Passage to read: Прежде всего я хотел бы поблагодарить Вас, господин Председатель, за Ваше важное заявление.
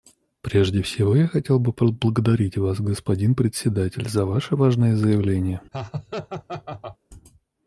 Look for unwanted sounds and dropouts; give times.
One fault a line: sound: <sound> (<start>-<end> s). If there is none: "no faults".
sound: laugh (5.7-7.0 s)